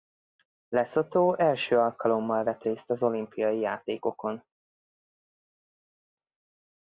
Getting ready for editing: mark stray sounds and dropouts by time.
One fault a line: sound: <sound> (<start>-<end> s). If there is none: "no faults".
no faults